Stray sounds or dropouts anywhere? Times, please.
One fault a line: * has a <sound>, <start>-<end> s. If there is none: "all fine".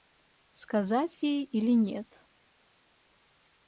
all fine